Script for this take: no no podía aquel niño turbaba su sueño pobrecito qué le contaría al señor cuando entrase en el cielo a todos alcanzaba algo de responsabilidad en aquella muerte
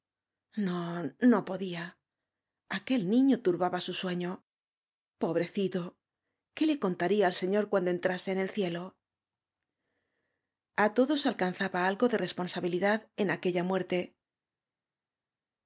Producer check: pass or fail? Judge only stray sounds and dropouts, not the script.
pass